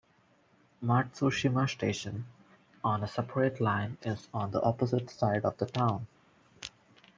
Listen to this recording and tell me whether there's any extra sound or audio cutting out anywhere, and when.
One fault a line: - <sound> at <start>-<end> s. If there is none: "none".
none